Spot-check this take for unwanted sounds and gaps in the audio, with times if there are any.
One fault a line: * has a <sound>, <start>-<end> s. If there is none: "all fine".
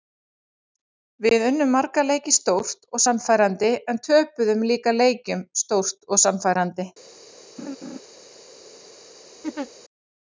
* has a laugh, 7.6-8.0 s
* has a laugh, 9.4-9.7 s